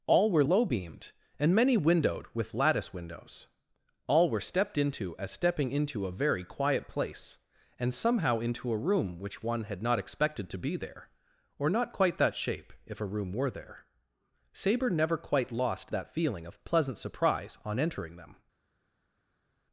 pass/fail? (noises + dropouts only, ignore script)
pass